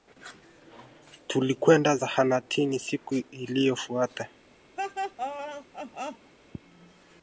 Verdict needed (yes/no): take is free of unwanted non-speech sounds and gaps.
no